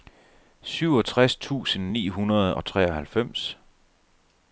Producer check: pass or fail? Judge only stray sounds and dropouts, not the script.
pass